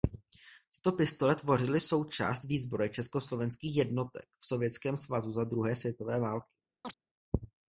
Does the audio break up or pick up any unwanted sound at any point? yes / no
yes